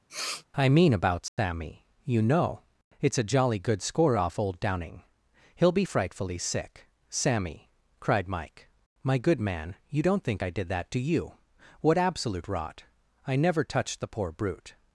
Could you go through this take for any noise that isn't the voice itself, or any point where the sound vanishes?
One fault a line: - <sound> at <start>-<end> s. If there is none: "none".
- sniff at 0.1-0.5 s
- dropout at 1.3-1.4 s